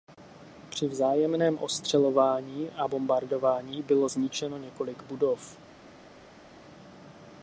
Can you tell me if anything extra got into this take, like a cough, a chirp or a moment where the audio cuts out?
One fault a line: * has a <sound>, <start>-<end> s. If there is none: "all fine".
all fine